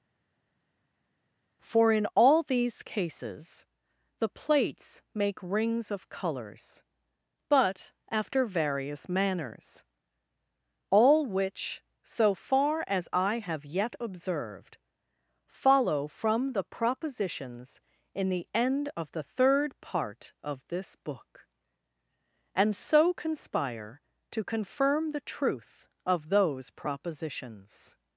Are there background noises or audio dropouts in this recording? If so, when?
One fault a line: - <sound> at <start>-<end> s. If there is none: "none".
none